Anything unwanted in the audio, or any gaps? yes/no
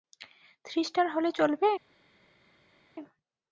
no